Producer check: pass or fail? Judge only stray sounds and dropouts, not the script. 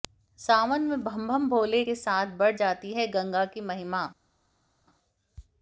pass